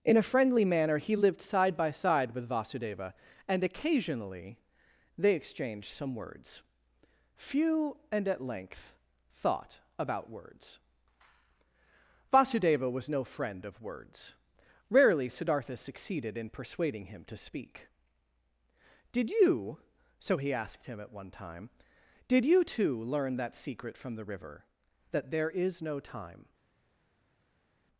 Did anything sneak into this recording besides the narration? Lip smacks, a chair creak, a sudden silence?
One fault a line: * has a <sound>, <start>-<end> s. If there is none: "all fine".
all fine